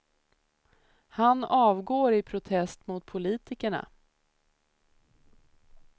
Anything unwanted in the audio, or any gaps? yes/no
no